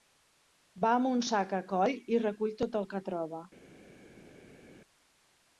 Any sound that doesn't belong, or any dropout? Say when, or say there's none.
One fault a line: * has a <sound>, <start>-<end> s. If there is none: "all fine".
all fine